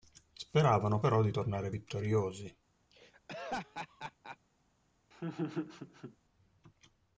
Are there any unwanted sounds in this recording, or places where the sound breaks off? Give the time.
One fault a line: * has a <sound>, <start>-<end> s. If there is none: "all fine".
* has a laugh, 2.9-4.4 s
* has a laugh, 5.1-6.2 s